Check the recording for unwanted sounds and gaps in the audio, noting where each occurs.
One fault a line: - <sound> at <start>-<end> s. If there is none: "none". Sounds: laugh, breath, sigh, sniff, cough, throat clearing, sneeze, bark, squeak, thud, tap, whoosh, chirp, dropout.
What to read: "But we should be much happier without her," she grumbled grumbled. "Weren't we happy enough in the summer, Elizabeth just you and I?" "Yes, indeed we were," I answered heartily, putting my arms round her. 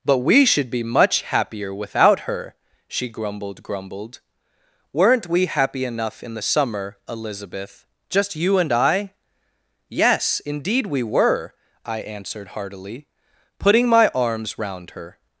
none